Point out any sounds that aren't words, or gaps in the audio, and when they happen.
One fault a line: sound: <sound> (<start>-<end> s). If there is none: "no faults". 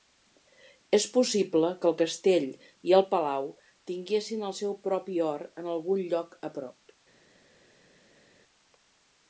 no faults